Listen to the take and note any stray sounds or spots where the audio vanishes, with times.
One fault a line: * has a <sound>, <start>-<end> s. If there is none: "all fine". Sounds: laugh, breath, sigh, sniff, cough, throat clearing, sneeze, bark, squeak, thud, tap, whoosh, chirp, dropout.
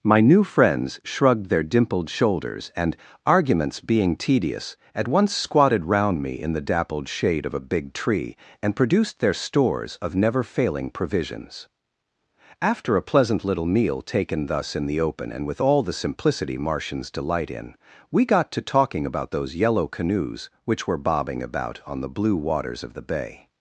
all fine